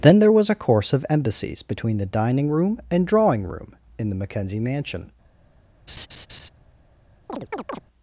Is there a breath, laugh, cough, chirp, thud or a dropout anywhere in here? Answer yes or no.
yes